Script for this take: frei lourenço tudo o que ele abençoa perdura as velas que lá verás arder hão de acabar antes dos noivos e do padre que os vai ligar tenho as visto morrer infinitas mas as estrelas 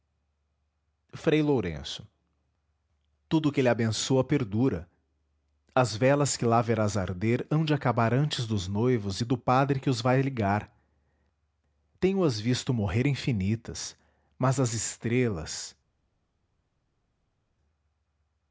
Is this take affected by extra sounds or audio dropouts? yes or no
no